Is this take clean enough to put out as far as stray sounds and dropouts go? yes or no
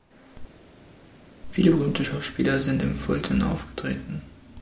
yes